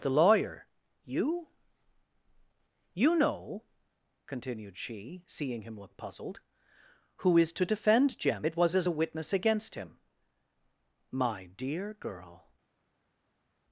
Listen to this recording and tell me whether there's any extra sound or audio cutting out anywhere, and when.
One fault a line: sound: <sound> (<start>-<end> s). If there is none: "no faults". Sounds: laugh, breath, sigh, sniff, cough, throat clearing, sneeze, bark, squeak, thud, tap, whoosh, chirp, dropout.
no faults